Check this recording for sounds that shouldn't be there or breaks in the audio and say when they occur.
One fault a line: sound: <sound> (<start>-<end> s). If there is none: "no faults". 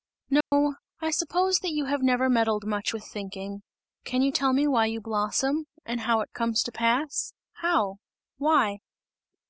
sound: dropout (0.4-0.5 s)